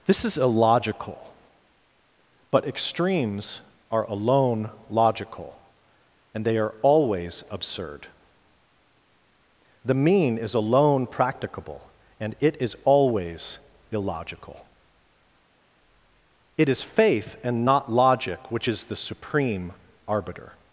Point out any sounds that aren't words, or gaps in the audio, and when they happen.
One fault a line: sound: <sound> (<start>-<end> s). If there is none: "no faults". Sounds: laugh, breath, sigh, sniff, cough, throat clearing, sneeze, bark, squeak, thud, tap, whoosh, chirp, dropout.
no faults